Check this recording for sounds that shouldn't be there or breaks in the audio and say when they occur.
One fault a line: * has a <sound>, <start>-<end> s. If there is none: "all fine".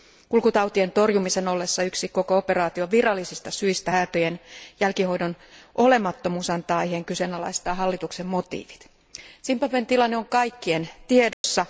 * has a dropout, 11.3-11.4 s